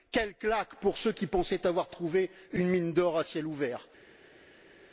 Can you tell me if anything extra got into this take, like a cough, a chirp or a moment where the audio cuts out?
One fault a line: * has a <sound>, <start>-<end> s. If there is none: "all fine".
all fine